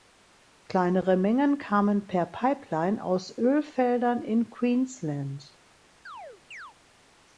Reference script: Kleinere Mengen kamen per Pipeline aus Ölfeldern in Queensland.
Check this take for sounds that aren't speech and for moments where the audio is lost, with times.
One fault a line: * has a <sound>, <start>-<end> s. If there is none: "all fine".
* has a chirp, 6.1-6.7 s